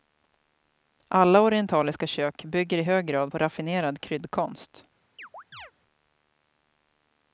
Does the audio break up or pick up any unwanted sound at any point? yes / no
yes